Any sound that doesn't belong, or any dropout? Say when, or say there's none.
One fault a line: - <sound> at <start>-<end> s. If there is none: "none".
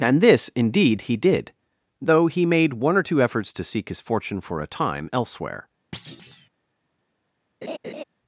- thud at 5.9-6.5 s
- laugh at 7.6-8.0 s